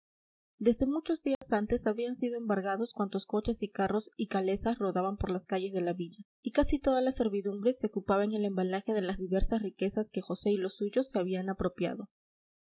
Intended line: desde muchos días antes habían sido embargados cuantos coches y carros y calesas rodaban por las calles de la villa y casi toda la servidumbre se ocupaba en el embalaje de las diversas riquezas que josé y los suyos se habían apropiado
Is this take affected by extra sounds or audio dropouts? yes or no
yes